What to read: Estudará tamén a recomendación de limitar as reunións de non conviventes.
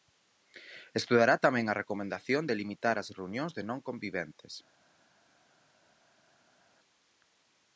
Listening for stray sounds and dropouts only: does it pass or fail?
pass